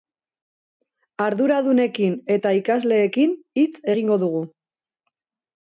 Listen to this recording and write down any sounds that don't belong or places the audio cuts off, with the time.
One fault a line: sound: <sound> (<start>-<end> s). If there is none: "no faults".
no faults